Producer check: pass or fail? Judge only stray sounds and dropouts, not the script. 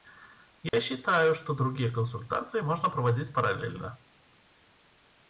fail